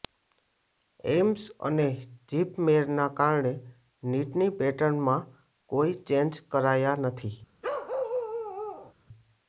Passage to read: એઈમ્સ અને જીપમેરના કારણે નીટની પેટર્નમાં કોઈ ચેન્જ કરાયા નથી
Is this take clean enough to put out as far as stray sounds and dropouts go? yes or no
no